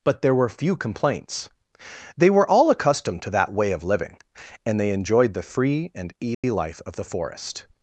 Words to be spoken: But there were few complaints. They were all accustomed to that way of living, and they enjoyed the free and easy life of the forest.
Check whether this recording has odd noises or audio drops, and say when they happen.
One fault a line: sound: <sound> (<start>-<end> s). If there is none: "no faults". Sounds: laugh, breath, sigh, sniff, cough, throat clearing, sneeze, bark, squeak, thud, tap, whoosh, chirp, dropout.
sound: dropout (6.3-6.4 s)